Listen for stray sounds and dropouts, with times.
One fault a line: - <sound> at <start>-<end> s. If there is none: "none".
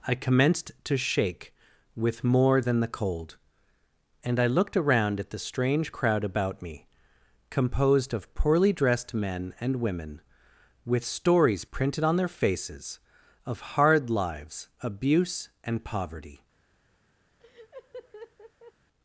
- laugh at 17.4-18.7 s